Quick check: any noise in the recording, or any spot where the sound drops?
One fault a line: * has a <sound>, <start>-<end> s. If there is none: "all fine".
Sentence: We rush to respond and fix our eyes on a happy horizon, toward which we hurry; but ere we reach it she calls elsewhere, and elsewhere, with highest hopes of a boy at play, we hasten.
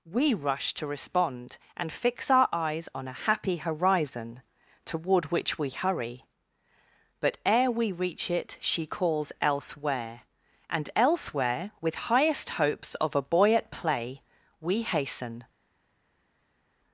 all fine